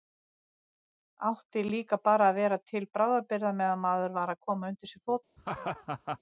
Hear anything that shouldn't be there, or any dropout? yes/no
yes